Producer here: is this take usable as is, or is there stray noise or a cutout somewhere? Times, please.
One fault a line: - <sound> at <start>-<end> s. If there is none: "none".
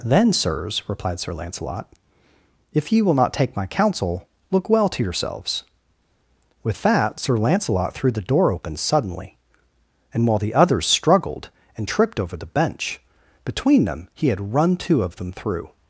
none